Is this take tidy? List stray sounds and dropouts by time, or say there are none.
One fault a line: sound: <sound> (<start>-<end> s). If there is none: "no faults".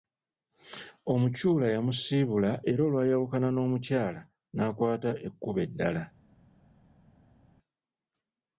no faults